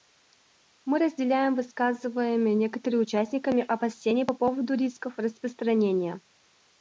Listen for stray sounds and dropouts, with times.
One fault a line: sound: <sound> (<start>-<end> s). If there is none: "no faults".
no faults